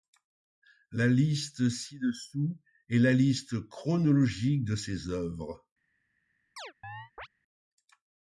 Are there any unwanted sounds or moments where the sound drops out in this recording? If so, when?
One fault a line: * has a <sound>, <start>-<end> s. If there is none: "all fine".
* has a chirp, 6.6-7.3 s